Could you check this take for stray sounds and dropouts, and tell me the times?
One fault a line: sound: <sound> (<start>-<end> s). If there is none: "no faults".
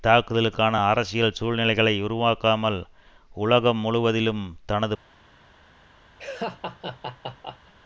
sound: laugh (6.2-7.7 s)